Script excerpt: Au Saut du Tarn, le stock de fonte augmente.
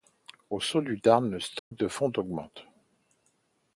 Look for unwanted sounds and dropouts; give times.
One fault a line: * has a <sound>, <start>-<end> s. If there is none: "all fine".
* has a dropout, 1.6-1.7 s